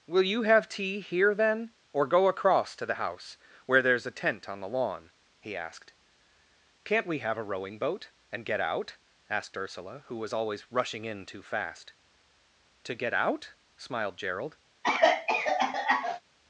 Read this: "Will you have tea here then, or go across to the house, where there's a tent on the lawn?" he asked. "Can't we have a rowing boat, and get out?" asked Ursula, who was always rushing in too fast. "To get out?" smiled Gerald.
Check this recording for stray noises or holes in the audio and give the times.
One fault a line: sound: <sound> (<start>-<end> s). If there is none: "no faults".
sound: cough (14.8-16.2 s)